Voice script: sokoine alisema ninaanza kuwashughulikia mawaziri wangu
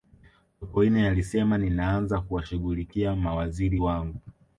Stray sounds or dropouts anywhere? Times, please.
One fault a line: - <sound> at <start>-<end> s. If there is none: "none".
none